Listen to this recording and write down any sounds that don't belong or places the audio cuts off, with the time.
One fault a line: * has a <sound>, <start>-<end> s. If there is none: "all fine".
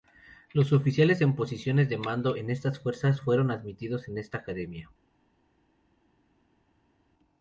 all fine